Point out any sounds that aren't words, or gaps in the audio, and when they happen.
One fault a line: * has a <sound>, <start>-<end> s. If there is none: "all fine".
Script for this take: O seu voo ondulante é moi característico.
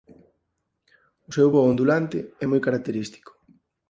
all fine